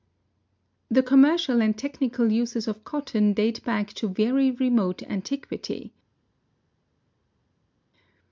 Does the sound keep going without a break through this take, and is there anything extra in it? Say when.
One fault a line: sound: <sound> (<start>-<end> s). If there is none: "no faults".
no faults